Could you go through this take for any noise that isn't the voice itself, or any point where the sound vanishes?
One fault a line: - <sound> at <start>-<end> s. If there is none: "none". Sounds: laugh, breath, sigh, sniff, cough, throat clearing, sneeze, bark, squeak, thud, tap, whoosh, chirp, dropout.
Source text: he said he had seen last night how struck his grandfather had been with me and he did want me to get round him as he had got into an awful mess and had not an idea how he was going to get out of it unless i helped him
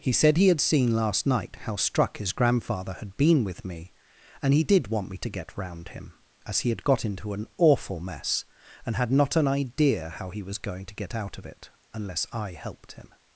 none